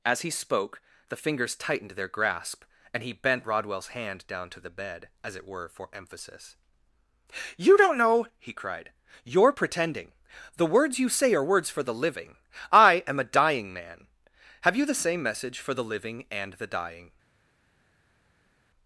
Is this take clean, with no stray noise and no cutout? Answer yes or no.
yes